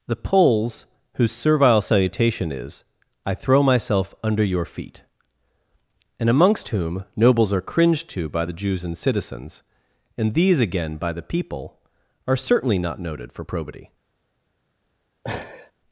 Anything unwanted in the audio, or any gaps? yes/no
yes